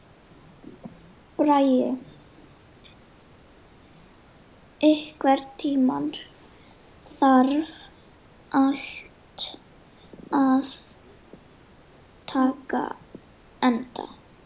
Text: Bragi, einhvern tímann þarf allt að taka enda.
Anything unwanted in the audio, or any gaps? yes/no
no